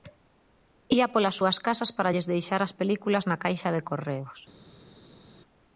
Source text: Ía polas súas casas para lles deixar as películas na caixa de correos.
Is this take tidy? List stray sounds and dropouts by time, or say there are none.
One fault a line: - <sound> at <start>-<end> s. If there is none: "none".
none